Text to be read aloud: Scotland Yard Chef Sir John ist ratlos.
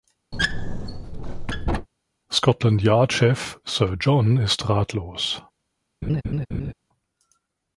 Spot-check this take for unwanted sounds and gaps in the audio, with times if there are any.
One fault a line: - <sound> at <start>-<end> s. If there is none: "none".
- squeak at 0.3-1.9 s
- laugh at 6.0-6.7 s